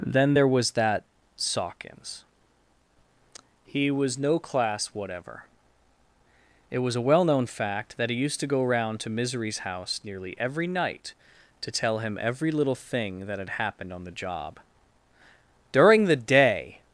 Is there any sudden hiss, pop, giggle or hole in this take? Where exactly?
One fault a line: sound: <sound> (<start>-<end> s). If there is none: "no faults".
no faults